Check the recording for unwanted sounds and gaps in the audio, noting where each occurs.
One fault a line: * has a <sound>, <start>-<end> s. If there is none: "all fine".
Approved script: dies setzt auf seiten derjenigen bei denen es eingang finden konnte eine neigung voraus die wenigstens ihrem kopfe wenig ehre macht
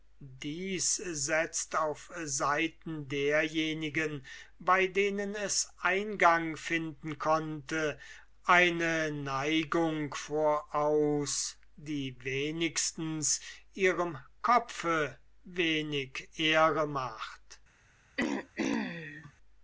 * has a throat clearing, 18.2-19.3 s